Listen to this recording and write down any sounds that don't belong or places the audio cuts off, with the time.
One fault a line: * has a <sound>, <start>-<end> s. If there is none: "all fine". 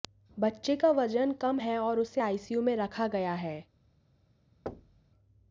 * has a thud, 4.7-5.1 s